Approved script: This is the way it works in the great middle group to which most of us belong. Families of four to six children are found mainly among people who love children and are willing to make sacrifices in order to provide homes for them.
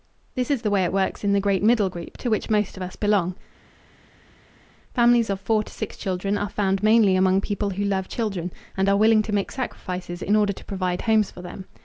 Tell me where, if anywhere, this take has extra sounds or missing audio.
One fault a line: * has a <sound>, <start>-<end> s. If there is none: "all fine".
all fine